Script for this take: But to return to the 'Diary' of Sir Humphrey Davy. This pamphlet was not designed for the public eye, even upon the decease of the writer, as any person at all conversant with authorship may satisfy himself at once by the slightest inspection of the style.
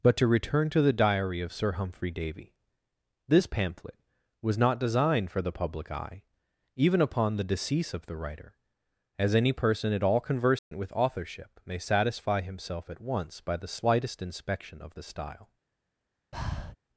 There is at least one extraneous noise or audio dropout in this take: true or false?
true